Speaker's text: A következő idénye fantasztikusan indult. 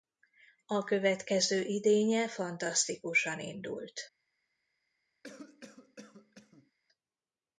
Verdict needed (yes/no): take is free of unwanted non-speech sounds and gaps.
no